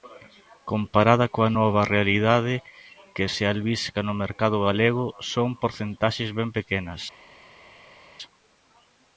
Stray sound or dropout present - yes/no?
no